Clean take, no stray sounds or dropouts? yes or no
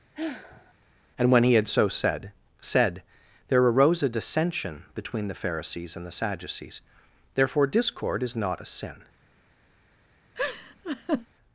no